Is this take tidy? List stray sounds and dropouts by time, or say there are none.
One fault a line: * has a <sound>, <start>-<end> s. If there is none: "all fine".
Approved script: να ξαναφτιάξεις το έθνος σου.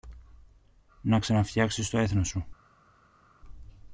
all fine